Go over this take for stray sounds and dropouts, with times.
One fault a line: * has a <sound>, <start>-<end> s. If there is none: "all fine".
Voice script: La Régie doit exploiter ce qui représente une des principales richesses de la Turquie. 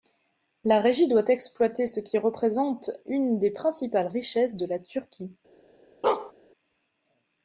* has a bark, 6.0-6.3 s